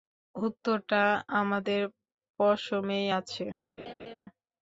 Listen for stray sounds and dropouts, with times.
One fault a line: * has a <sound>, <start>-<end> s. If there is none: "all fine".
* has a laugh, 3.8-4.1 s